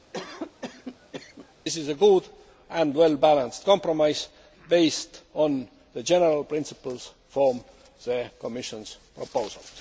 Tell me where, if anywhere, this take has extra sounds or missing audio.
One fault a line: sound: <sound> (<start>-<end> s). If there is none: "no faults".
sound: cough (0.1-1.5 s)